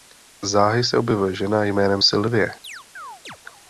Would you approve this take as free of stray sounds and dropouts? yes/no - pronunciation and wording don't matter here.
no